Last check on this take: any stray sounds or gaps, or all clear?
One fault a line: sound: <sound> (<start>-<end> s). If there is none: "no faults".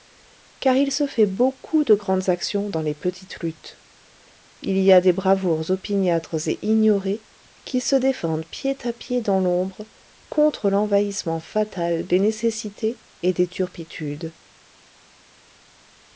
no faults